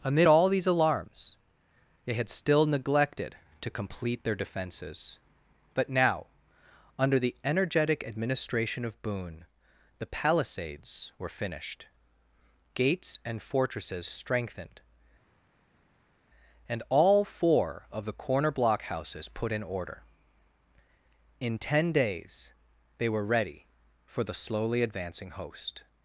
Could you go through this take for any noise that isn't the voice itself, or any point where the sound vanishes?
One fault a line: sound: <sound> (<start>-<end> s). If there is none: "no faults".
no faults